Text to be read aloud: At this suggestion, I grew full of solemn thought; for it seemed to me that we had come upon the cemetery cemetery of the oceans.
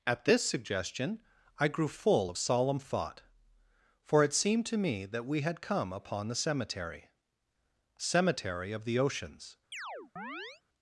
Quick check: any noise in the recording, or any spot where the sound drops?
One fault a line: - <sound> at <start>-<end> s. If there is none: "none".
- chirp at 9.7-10.6 s